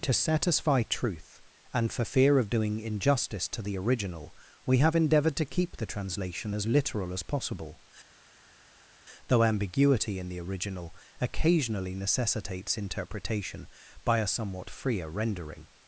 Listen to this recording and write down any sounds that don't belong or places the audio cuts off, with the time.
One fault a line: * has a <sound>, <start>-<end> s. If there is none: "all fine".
all fine